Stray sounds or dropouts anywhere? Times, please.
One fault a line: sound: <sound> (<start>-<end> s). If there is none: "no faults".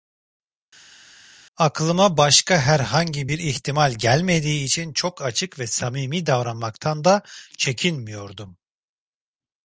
no faults